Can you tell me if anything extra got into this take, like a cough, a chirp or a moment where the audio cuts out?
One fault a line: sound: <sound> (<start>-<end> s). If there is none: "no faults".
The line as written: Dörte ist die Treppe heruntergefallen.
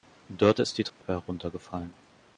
sound: dropout (0.9-1.0 s)